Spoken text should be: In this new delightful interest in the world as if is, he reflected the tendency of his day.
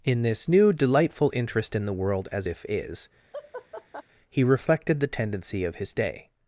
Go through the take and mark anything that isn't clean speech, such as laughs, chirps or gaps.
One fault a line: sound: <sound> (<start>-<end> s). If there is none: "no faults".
sound: laugh (3.3-4.0 s)